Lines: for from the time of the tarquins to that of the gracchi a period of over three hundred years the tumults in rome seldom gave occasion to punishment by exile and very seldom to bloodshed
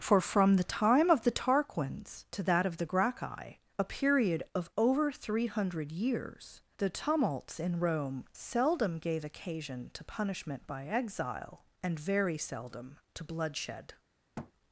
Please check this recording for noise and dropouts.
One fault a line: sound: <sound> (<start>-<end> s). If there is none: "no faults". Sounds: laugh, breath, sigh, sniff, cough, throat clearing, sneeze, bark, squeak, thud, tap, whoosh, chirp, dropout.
sound: thud (14.4-14.5 s)